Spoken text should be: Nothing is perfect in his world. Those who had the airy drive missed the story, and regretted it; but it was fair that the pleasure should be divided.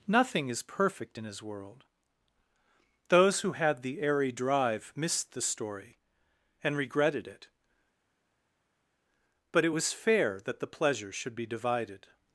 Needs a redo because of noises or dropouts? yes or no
no